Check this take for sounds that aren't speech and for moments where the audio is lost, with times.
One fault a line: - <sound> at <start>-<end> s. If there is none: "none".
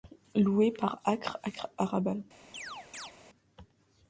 - chirp at 2.5-3.1 s